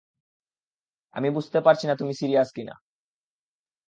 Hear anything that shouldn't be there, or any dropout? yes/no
no